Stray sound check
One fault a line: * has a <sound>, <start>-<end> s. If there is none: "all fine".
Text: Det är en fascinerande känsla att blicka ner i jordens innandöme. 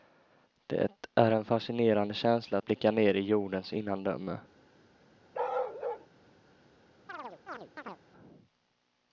* has a bark, 5.3-6.1 s
* has a chirp, 7.1-8.0 s